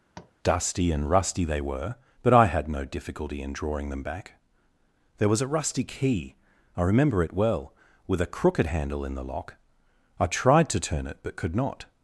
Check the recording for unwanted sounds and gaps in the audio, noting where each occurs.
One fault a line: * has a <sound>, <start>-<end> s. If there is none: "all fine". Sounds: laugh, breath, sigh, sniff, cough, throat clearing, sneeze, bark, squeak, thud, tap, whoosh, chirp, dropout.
* has a tap, 0.1-0.3 s